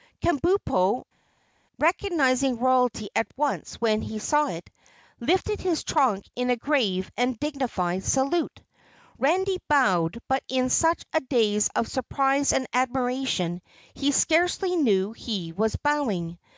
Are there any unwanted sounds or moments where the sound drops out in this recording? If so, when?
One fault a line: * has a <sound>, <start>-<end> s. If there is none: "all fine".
all fine